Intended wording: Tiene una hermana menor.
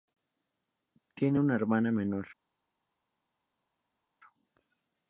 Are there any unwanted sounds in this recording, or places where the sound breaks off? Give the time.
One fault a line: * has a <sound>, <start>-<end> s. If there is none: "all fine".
all fine